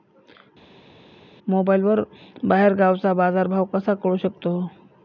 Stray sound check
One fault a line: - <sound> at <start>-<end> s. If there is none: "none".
none